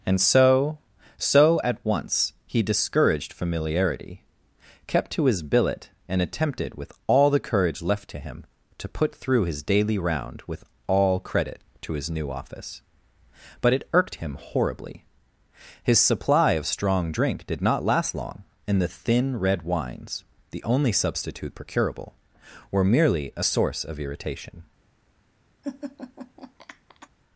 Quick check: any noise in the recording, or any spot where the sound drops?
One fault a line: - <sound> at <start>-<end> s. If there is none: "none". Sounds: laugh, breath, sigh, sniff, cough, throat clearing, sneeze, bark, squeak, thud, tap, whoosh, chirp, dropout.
- laugh at 25.6-27.1 s